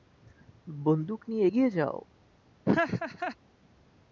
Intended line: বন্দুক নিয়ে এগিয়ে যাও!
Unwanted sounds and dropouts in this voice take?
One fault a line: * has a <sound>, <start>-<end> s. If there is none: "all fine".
* has a laugh, 2.6-3.4 s